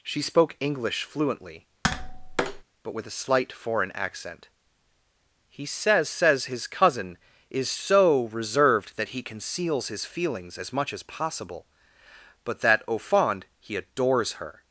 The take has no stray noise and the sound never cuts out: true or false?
false